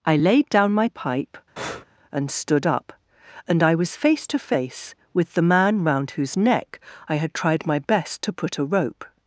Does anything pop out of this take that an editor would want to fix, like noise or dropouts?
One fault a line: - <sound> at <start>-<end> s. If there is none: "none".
- breath at 1.6-1.8 s